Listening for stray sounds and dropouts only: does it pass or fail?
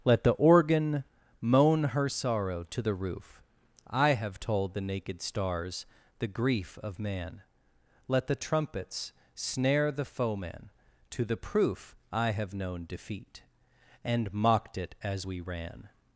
pass